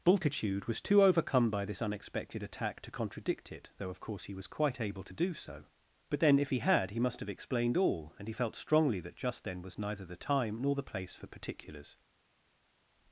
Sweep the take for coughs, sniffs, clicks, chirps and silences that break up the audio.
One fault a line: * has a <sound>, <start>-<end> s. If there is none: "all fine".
all fine